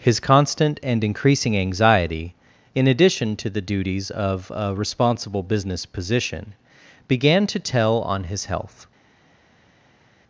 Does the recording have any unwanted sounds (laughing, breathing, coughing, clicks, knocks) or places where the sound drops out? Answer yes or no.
no